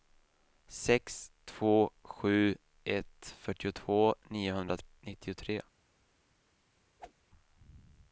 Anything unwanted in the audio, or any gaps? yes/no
yes